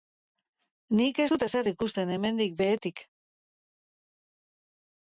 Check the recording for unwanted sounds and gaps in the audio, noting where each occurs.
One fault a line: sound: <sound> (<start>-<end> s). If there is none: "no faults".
no faults